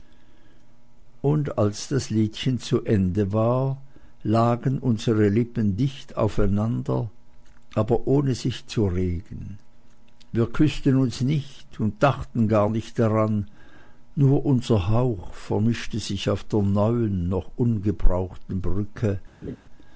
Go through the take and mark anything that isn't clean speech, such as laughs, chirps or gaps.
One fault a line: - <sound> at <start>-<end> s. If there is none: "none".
- laugh at 19.4-19.6 s